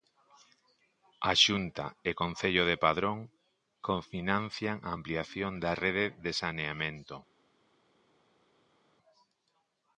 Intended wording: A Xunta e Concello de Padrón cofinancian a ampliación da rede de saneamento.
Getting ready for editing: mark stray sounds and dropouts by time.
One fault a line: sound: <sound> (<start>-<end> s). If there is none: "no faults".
no faults